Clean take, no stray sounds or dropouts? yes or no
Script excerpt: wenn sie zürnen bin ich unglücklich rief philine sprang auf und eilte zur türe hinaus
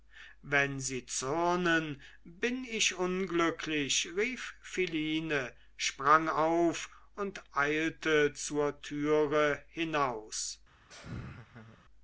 no